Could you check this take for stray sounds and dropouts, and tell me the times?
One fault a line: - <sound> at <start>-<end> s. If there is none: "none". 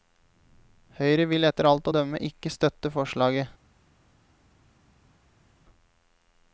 none